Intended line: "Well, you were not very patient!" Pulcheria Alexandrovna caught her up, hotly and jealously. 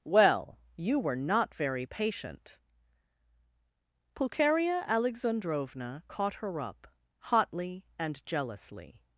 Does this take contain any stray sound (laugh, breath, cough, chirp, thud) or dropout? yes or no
no